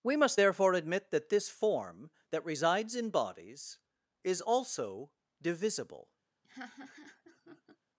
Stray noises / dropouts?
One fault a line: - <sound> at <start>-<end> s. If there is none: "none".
- laugh at 6.4-7.8 s